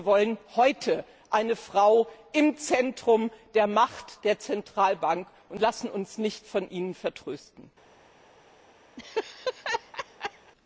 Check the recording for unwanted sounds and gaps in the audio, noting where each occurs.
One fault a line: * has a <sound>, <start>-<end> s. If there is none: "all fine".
* has a laugh, 9.0-10.5 s